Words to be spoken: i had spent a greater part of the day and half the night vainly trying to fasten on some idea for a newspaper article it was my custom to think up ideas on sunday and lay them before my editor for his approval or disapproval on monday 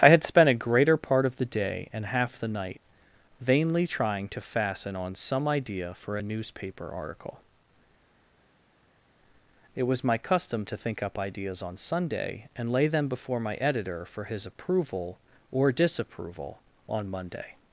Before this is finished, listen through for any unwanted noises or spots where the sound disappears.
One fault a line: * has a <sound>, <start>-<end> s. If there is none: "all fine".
all fine